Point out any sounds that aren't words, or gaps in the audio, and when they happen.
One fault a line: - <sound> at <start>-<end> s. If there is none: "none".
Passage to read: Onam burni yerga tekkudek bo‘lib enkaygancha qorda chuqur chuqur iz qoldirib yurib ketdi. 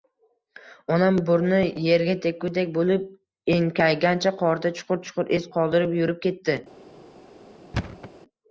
- thud at 7.7-8.1 s